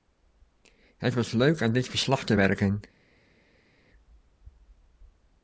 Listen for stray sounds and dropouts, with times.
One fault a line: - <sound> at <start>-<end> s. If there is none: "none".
none